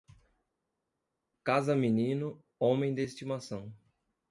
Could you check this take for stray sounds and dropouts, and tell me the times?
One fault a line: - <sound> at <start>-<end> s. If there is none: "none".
none